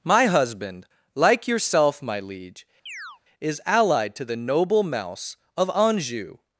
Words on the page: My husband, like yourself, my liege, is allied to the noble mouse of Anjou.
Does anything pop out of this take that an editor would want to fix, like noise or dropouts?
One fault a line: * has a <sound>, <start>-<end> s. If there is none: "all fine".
* has a chirp, 2.9-3.2 s